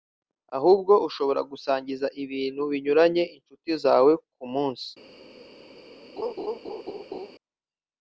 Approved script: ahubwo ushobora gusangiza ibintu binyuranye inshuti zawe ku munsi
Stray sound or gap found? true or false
true